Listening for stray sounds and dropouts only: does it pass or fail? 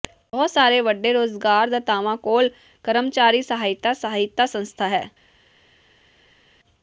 pass